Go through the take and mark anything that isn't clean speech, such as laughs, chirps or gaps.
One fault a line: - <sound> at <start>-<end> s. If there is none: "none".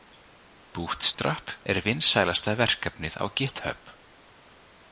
- dropout at 1.1-1.2 s